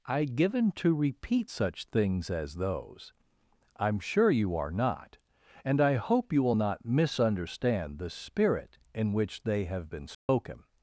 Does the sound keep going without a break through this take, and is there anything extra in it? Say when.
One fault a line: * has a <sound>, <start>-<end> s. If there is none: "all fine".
* has a dropout, 10.1-10.3 s